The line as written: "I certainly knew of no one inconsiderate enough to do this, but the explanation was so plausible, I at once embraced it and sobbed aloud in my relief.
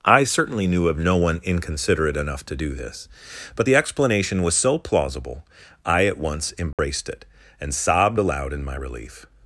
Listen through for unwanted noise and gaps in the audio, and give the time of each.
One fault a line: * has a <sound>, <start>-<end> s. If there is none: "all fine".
* has a dropout, 6.7-6.8 s